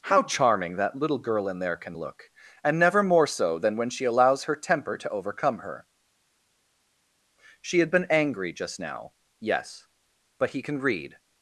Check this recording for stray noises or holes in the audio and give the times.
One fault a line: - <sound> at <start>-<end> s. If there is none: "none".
none